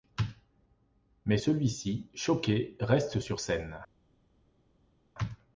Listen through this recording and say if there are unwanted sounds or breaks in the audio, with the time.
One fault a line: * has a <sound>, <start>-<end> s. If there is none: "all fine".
all fine